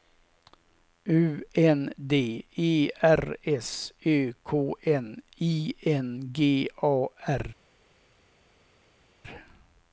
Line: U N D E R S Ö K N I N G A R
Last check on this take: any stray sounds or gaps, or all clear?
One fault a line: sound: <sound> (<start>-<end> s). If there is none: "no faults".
no faults